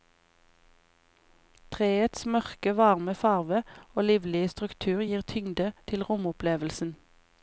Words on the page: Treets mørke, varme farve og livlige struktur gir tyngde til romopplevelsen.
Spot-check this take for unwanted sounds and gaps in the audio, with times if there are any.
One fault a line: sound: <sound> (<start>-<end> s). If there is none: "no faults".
no faults